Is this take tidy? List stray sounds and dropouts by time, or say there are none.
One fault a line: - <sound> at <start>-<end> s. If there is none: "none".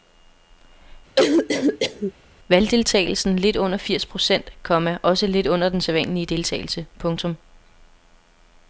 - cough at 1.2-2.1 s